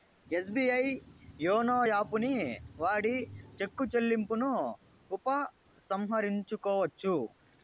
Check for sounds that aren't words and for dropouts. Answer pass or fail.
pass